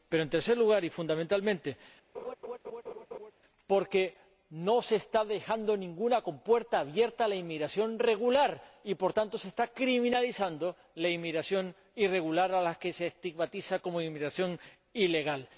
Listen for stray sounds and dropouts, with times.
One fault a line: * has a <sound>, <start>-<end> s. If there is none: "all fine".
* has a laugh, 2.1-3.3 s